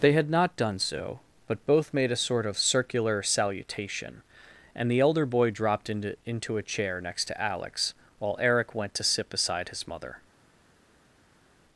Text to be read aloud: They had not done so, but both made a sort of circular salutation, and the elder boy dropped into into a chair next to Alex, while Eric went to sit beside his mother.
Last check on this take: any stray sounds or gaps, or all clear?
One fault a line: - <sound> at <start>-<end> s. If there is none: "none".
none